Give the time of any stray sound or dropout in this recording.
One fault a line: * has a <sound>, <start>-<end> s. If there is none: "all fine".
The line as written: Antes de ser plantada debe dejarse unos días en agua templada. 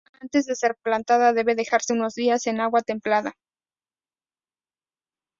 all fine